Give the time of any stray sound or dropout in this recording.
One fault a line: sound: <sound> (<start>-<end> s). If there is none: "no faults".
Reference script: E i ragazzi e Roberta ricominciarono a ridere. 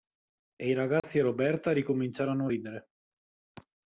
sound: dropout (1.0-1.0 s)